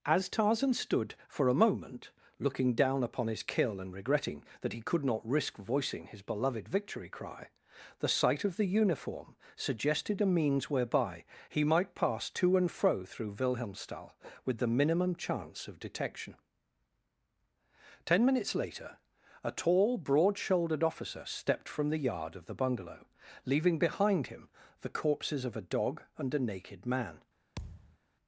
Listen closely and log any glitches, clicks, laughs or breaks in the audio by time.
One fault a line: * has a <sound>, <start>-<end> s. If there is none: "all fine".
* has a thud, 27.6-28.0 s